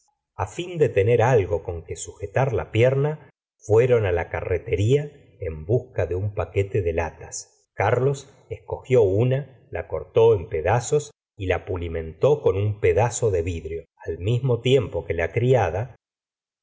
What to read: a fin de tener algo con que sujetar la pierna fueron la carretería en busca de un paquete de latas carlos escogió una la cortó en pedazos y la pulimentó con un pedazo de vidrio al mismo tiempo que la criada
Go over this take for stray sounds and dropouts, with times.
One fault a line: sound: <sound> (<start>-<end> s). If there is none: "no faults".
no faults